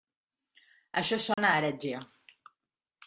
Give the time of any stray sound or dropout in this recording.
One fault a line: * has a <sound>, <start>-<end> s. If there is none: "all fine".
* has a dropout, 1.3-1.4 s